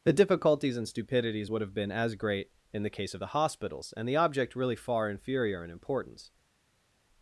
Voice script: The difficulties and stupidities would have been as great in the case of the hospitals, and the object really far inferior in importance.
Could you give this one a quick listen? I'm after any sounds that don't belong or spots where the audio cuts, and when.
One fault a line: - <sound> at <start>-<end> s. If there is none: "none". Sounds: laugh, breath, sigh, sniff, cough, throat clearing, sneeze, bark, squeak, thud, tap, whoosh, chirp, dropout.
none